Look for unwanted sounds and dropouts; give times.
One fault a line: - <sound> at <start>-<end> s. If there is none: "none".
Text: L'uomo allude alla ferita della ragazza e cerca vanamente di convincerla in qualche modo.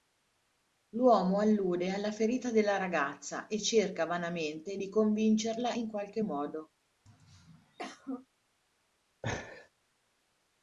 - throat clearing at 7.1-8.3 s
- laugh at 9.2-9.7 s